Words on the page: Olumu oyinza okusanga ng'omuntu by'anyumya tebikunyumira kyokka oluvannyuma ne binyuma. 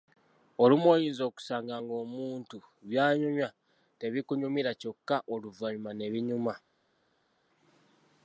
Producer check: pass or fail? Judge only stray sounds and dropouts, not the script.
pass